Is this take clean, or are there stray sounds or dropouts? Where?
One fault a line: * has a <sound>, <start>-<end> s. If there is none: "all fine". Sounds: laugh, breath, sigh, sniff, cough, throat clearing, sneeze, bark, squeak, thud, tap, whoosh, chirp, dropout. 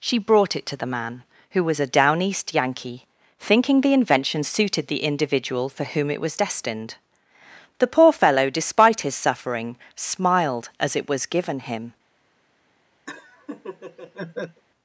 * has a laugh, 13.1-14.6 s